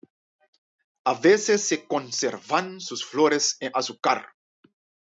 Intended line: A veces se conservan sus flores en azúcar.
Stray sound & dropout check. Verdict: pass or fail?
pass